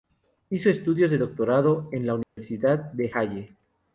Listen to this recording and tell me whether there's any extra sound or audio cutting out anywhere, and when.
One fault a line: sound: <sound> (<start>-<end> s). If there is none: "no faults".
sound: dropout (2.2-2.4 s)